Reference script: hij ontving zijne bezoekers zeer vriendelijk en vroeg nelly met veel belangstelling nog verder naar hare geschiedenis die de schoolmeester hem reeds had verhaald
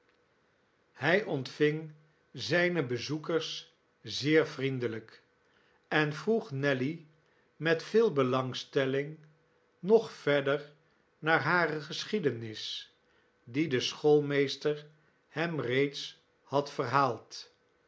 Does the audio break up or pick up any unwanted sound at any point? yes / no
no